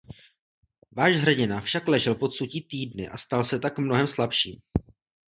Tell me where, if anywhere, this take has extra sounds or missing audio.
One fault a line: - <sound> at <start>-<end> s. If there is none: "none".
none